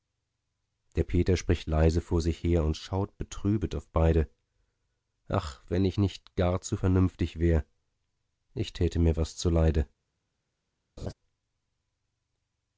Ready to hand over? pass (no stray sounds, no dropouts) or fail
fail